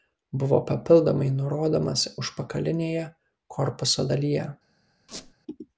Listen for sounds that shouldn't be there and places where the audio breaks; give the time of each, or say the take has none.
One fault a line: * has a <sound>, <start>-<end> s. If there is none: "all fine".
* has a squeak, 5.1-5.3 s